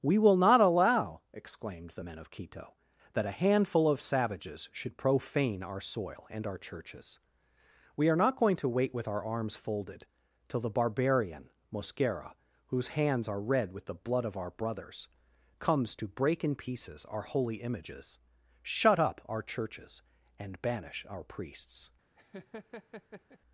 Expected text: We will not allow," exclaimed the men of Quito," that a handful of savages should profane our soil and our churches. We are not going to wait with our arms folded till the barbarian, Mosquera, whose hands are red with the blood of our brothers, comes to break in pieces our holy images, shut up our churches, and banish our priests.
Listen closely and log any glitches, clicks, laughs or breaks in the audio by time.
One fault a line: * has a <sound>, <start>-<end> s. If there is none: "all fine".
* has a laugh, 22.2-23.4 s